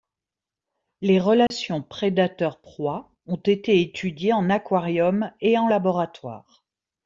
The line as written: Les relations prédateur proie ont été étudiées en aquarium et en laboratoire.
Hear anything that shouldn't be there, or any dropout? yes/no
yes